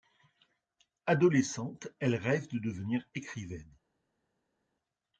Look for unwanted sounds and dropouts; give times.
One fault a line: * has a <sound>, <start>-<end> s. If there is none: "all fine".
all fine